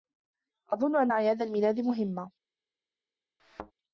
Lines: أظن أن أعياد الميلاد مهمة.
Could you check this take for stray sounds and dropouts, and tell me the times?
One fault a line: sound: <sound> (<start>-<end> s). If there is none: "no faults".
sound: thud (3.4-3.7 s)